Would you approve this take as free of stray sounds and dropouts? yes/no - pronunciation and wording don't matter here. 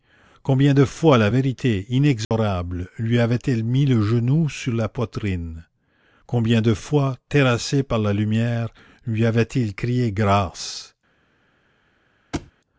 no